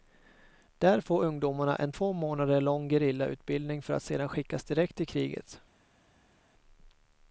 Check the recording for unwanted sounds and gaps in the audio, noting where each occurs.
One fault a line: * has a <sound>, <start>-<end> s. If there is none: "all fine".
all fine